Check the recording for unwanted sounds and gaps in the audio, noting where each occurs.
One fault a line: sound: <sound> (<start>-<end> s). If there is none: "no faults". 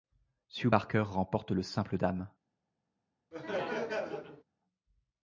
sound: laugh (3.3-4.4 s)